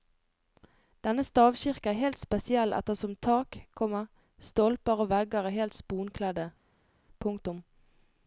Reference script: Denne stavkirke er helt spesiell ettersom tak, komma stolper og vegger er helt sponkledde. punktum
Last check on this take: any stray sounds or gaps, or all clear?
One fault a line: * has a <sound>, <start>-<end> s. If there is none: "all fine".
all fine